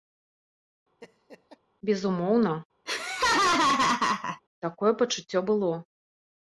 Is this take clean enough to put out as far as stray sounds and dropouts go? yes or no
no